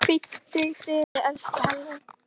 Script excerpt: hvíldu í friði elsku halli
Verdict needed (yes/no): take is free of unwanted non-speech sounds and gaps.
no